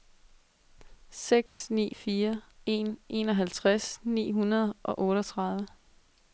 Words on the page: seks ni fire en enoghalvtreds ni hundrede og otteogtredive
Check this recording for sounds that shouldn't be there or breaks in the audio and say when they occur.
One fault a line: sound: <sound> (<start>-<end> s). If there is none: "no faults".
sound: dropout (1.5-1.6 s)